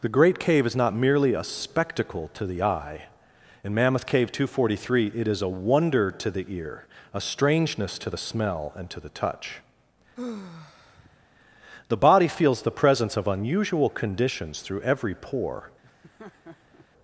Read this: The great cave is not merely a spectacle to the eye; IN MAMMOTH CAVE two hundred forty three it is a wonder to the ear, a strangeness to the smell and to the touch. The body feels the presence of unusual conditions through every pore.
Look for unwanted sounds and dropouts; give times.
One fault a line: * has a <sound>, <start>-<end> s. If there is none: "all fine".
* has a sigh, 10.2-11.3 s
* has a laugh, 15.8-16.9 s